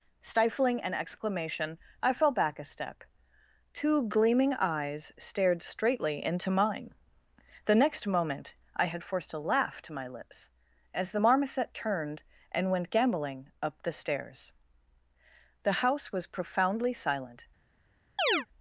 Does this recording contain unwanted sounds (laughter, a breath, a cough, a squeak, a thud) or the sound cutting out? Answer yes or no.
yes